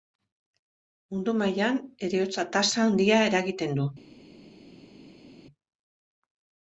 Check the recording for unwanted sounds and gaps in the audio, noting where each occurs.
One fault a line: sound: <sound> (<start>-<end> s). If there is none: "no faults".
no faults